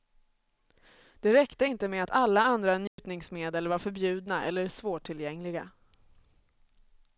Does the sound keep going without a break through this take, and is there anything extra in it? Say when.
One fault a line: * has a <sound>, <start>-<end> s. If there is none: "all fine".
* has a dropout, 2.9-3.0 s